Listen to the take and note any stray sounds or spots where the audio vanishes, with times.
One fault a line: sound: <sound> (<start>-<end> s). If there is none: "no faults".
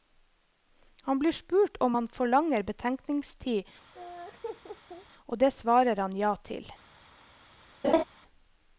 sound: laugh (3.9-5.1 s)
sound: laugh (7.8-8.0 s)